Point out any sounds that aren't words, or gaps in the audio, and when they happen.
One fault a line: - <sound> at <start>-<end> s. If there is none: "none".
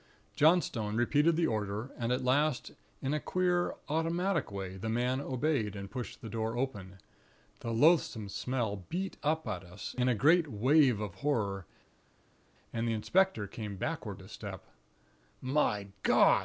none